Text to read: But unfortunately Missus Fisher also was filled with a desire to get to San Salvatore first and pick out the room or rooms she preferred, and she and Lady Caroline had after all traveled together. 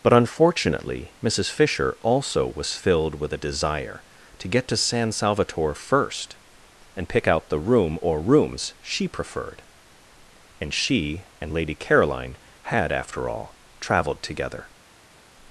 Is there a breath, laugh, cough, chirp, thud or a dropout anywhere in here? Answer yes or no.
no